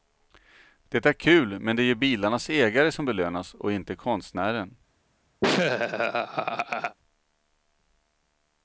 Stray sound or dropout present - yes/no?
yes